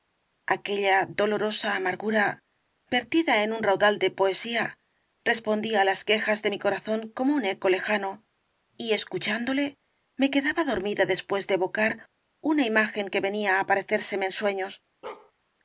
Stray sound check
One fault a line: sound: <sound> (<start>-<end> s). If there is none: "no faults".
sound: bark (15.0-15.3 s)